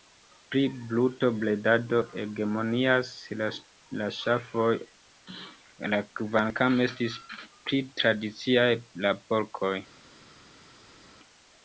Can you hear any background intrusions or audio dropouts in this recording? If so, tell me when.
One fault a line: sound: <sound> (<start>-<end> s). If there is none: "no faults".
no faults